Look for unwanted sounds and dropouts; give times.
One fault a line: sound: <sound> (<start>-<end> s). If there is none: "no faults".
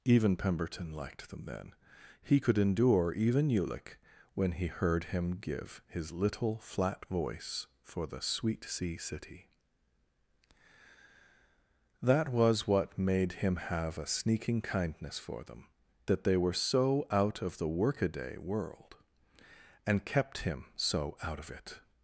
no faults